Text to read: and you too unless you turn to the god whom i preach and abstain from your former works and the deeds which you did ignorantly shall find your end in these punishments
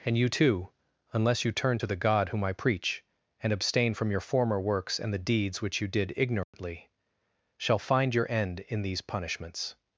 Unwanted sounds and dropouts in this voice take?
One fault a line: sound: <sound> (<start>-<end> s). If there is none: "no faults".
sound: dropout (6.4-6.5 s)